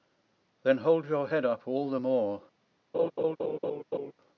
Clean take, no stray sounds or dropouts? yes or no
no